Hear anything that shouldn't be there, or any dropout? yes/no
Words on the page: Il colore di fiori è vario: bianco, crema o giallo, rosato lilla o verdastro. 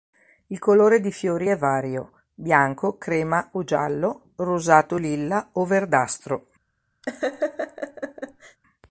yes